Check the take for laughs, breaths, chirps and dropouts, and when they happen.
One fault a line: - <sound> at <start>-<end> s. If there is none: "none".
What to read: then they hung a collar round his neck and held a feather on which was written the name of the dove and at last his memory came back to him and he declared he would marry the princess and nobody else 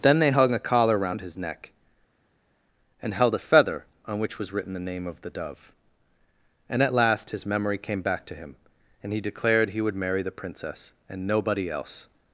none